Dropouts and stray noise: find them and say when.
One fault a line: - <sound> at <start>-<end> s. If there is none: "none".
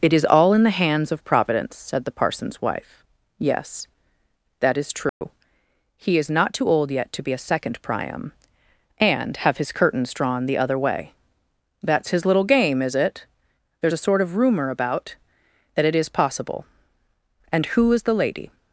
- dropout at 5.1-5.2 s